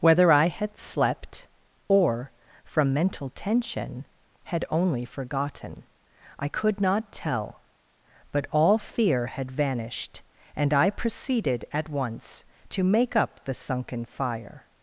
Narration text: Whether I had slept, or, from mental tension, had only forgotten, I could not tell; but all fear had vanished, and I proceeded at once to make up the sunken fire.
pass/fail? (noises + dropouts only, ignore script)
pass